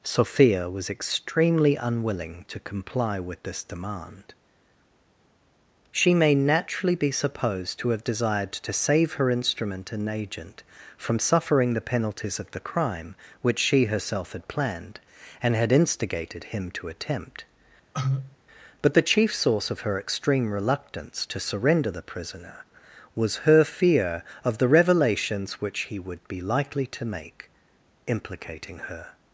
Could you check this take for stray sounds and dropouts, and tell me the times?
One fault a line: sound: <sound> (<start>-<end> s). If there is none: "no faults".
sound: cough (17.9-18.4 s)